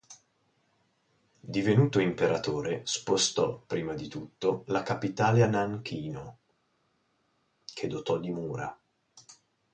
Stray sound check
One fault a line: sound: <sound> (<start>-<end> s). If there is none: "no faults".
no faults